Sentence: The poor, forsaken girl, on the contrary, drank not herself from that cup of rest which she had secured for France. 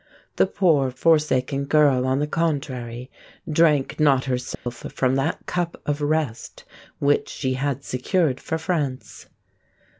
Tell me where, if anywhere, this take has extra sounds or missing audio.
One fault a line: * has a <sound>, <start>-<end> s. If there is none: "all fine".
* has a dropout, 4.5-4.7 s